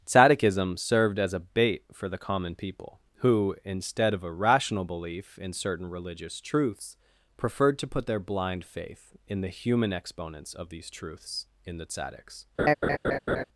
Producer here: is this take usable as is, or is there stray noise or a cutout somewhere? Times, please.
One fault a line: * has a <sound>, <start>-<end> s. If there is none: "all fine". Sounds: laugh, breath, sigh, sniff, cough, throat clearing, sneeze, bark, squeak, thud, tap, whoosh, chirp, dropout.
* has a laugh, 12.6-13.4 s